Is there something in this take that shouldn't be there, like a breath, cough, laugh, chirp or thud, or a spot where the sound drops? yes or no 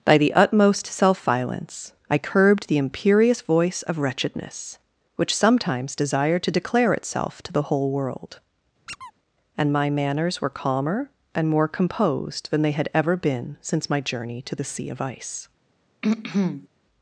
yes